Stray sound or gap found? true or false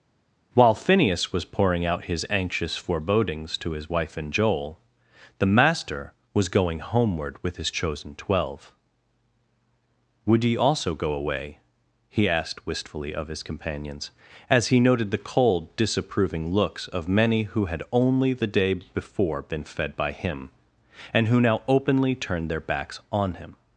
false